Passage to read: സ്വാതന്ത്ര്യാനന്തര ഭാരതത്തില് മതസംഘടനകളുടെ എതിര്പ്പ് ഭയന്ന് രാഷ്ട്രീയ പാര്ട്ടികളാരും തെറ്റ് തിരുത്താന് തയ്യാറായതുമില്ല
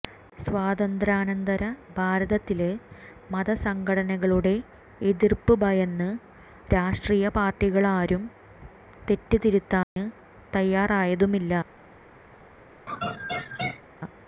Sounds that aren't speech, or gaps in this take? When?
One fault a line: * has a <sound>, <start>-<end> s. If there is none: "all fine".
* has a dropout, 9.8-10.0 s
* has a laugh, 12.9-13.8 s